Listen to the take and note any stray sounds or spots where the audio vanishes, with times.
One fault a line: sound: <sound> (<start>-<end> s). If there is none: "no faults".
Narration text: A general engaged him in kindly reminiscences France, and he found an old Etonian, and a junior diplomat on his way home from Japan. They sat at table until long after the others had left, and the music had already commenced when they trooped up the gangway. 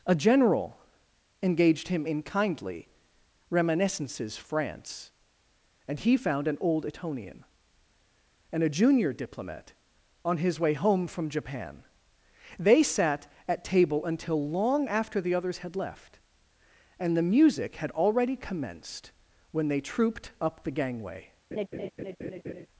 sound: laugh (21.5-22.7 s)